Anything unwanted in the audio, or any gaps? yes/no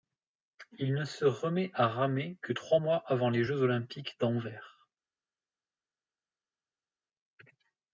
no